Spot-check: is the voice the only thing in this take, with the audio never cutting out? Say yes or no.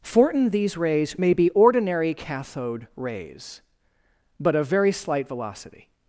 yes